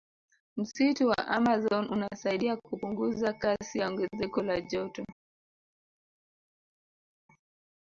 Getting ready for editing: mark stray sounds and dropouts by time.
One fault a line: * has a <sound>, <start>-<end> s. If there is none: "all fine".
all fine